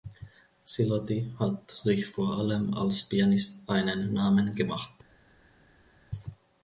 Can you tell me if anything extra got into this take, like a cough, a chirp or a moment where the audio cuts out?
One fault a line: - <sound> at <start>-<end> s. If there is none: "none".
none